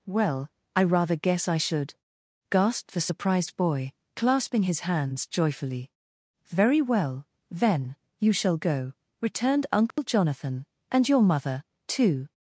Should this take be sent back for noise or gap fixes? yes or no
yes